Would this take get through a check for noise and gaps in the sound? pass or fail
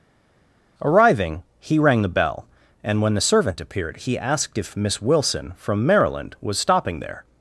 pass